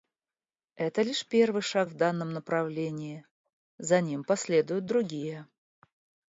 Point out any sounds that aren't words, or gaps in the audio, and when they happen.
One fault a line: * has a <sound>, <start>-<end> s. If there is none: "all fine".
all fine